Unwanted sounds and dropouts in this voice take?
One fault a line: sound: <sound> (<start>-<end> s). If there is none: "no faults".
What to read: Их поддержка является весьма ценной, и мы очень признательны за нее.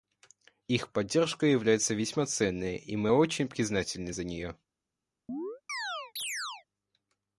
sound: chirp (5.3-6.7 s)